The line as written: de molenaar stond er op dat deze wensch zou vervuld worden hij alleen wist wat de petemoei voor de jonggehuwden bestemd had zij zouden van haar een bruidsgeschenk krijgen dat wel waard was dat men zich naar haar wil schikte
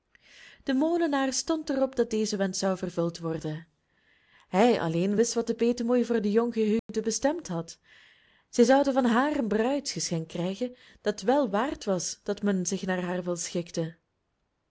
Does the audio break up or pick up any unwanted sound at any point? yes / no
yes